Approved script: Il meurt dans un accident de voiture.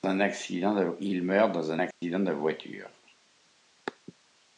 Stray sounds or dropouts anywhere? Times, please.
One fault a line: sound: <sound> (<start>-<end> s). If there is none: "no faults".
sound: dropout (1.9-2.0 s)